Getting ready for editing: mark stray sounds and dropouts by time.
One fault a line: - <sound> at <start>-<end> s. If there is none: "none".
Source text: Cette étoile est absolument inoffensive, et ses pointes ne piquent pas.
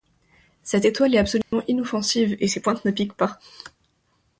- dropout at 1.4-1.5 s